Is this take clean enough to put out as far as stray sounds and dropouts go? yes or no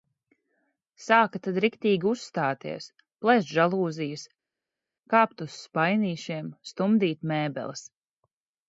yes